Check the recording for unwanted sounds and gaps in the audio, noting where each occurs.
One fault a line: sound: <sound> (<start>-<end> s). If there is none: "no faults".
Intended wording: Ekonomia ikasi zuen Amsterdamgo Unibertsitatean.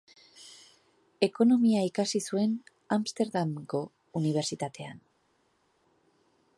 no faults